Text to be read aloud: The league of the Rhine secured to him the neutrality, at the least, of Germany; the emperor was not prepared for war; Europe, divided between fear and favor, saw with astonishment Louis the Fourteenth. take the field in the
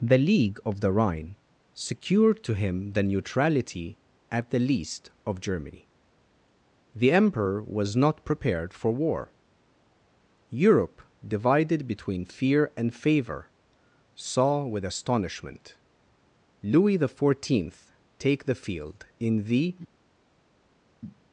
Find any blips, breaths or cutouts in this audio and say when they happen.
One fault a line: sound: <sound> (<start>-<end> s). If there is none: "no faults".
no faults